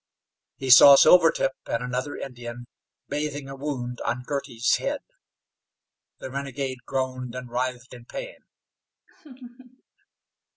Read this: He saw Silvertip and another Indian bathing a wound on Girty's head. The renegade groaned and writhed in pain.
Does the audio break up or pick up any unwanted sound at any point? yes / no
yes